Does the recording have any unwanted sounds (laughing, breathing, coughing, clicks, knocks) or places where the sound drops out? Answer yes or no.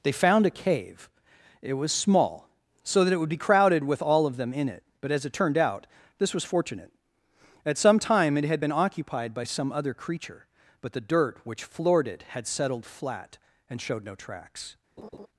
yes